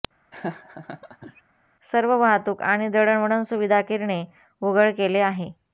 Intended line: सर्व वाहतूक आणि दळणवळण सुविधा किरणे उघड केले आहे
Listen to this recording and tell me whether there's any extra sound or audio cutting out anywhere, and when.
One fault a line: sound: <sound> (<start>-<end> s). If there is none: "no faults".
sound: laugh (0.3-1.4 s)